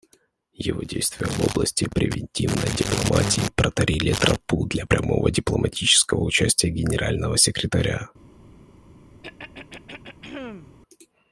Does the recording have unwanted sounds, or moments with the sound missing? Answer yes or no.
yes